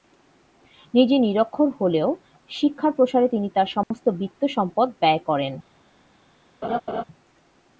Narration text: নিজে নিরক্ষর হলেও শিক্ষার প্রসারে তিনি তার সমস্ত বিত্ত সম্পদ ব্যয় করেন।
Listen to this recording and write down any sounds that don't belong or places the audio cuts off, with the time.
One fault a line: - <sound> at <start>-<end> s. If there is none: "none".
- dropout at 3.8-3.9 s
- laugh at 6.6-7.0 s